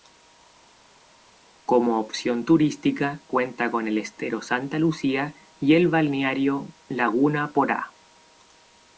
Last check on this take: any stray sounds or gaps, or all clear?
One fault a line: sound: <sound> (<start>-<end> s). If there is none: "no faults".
no faults